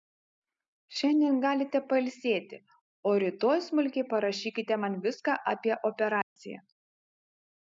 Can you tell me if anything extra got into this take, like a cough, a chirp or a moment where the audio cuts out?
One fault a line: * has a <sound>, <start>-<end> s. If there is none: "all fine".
* has a dropout, 6.2-6.4 s